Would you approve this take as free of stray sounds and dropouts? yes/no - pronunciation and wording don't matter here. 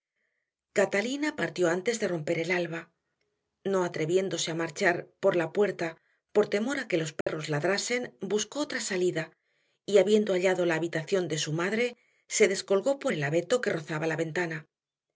no